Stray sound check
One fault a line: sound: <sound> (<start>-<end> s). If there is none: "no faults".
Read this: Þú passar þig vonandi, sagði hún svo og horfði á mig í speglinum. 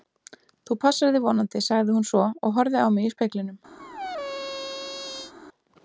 sound: squeak (3.8-5.3 s)